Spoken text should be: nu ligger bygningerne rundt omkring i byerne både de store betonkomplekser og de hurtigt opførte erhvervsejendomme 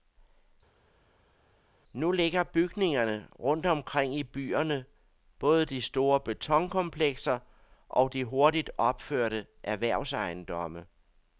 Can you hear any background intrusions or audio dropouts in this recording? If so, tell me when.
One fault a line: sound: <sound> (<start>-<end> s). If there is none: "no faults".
no faults